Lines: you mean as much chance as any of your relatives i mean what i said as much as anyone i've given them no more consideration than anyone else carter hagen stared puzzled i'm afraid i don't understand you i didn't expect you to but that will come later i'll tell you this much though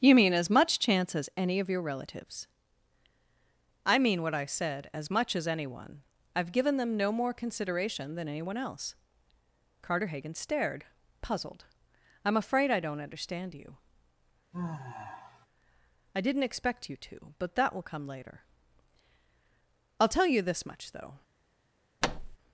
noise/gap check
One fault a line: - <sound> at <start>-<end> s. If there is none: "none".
- sigh at 14.5-15.5 s
- thud at 22.0-22.4 s